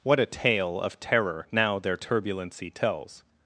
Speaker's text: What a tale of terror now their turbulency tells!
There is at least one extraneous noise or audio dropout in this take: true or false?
false